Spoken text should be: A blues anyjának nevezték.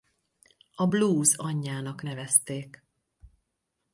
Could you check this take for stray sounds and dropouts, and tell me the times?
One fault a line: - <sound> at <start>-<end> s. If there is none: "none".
none